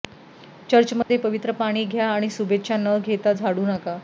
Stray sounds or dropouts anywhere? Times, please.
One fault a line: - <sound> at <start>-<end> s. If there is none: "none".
- dropout at 1.0-1.1 s